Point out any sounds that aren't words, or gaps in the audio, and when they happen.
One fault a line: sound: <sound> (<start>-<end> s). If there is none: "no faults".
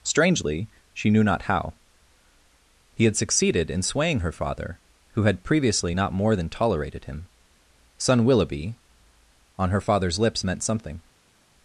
no faults